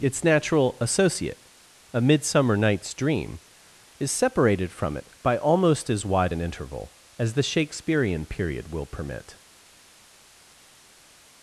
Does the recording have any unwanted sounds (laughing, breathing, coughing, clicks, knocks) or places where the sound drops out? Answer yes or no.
no